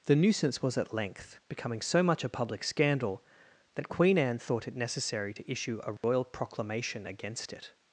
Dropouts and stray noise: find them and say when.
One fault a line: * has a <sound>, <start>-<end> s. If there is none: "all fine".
* has a dropout, 6.0-6.0 s